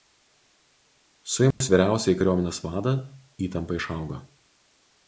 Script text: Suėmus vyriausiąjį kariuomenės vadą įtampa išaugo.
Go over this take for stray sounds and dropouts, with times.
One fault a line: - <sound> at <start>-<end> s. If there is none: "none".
- dropout at 1.5-1.6 s